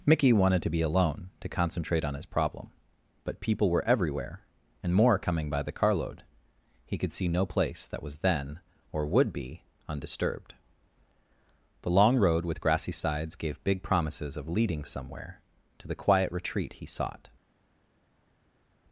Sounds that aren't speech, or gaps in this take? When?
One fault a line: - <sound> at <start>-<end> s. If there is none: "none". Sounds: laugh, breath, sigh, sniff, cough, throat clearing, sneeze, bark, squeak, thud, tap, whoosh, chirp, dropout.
none